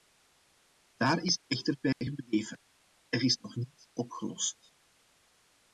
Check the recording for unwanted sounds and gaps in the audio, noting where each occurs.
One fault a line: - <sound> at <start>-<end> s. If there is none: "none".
- dropout at 1.9-2.0 s